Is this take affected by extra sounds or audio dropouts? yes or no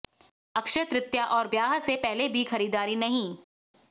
no